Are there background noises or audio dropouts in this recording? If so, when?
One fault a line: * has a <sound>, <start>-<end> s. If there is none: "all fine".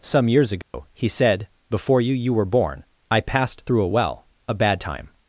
* has a dropout, 0.6-0.7 s